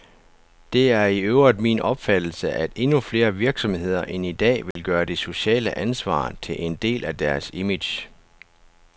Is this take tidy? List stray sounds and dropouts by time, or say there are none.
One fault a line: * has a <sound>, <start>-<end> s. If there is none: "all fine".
* has a dropout, 4.7-4.8 s